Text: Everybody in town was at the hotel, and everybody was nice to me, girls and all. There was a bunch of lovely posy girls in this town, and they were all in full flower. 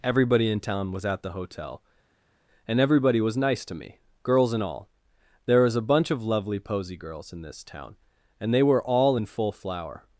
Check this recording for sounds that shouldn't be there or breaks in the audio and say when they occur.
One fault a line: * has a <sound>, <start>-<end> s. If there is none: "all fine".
all fine